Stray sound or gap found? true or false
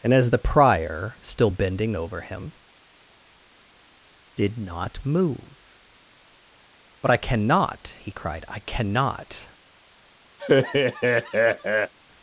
true